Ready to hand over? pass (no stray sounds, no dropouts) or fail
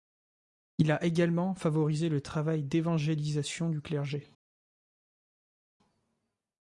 pass